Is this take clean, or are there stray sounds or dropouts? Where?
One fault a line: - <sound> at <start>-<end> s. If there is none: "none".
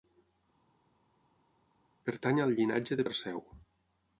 none